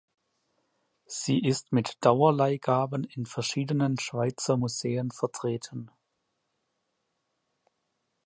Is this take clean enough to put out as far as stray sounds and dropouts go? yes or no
yes